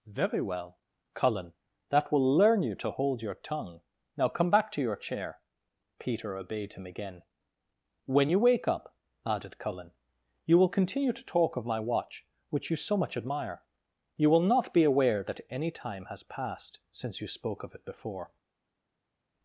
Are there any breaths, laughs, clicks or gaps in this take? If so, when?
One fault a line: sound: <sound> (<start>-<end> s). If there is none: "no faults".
no faults